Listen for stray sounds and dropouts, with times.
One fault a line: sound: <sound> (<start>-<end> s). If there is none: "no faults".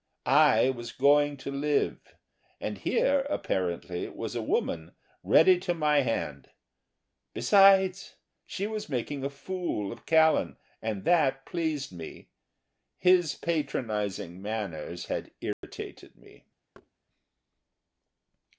sound: dropout (15.5-15.6 s)
sound: thud (16.7-16.9 s)